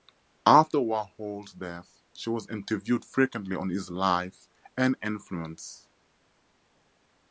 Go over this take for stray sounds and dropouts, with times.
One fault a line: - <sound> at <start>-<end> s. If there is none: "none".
none